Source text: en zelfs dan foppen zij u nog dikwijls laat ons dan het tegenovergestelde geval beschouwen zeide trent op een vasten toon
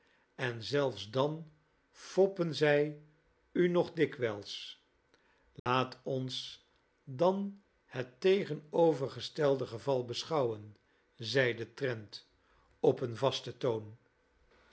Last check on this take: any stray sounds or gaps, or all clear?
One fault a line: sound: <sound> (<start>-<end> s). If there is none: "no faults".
sound: dropout (5.6-5.7 s)